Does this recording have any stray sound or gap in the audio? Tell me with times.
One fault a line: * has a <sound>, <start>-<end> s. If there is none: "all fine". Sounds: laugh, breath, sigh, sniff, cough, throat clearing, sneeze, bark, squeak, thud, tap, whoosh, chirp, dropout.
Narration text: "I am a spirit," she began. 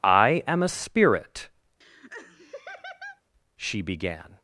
* has a laugh, 1.8-3.2 s